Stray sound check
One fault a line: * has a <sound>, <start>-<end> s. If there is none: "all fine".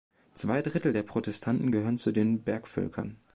all fine